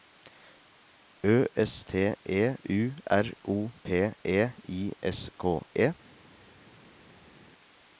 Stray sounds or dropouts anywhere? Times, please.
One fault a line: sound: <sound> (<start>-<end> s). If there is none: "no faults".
no faults